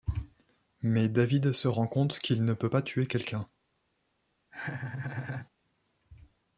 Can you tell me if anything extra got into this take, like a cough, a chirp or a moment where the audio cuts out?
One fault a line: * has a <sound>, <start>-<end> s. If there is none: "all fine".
* has a laugh, 4.5-5.5 s